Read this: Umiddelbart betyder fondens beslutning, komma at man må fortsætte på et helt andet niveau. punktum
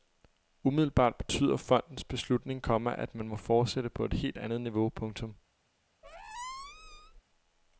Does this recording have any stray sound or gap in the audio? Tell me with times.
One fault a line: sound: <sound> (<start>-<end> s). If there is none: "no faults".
sound: squeak (6.0-7.2 s)